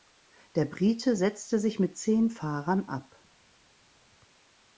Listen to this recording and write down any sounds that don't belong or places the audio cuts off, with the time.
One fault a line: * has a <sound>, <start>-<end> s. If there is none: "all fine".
all fine